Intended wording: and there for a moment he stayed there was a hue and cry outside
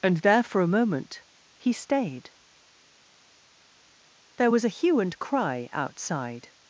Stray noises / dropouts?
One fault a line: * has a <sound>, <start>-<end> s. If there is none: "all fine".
all fine